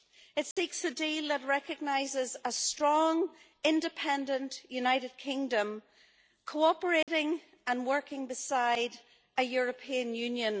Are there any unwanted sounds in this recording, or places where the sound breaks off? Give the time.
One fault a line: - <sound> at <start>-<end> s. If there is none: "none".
- dropout at 0.5-0.6 s
- dropout at 7.0-7.1 s